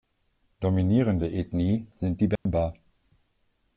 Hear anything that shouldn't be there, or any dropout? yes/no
yes